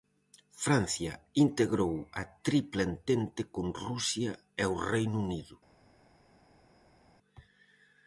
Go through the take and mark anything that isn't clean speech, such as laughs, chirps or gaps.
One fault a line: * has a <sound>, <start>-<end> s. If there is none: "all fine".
all fine